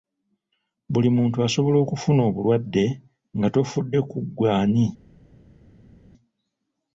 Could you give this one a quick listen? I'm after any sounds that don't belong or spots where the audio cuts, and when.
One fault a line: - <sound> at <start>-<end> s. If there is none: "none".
none